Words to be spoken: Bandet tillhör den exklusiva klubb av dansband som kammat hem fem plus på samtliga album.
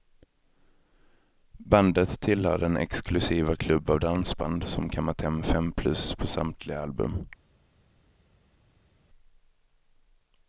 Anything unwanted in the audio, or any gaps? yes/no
no